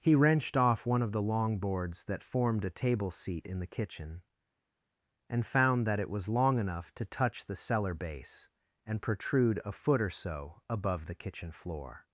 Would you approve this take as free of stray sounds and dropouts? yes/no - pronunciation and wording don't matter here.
yes